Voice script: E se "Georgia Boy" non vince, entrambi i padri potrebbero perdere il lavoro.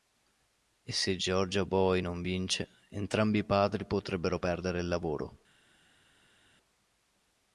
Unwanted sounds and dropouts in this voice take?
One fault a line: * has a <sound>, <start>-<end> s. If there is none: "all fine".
all fine